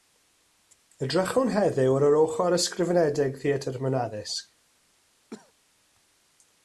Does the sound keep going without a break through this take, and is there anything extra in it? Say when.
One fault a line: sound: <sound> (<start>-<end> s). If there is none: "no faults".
sound: cough (5.3-5.5 s)